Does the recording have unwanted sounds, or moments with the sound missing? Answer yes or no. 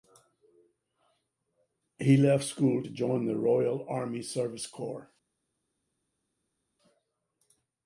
no